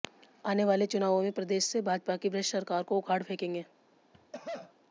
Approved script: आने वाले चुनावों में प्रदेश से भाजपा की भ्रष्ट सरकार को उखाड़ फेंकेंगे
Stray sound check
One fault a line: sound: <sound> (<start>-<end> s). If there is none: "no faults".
sound: cough (4.1-4.7 s)